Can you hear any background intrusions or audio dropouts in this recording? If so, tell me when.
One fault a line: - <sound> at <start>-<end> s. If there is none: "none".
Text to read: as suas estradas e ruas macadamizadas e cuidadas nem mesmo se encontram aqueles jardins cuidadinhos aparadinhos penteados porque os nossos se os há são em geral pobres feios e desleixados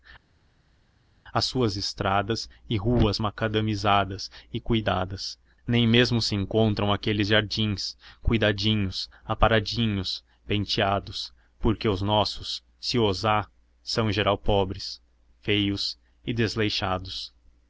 none